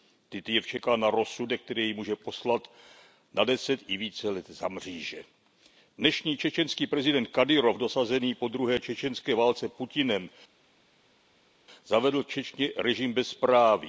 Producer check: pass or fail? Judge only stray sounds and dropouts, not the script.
pass